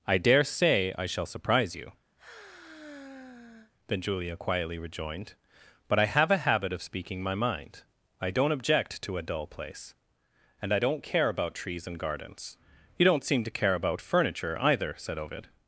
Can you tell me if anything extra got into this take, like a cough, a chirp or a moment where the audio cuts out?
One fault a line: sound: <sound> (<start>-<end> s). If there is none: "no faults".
sound: sigh (2.2-3.7 s)